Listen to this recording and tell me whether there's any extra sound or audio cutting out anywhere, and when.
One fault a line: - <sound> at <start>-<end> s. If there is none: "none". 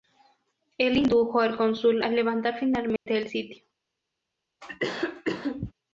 - dropout at 3.0-3.1 s
- cough at 4.6-5.7 s